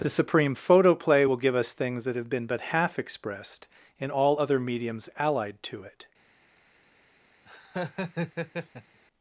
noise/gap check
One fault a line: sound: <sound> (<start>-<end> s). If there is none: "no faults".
sound: laugh (7.5-9.0 s)